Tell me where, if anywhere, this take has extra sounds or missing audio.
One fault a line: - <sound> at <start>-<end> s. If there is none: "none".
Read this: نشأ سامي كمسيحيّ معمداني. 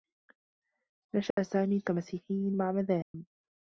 - dropout at 1.3-1.4 s
- dropout at 3.0-3.1 s